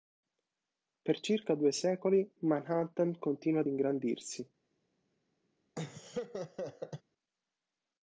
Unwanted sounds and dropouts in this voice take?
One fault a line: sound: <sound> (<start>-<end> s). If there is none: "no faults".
sound: laugh (5.7-7.0 s)